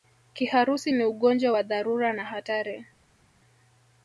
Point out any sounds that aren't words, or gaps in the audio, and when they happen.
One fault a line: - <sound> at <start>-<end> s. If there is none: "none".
none